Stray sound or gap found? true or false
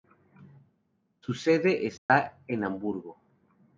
true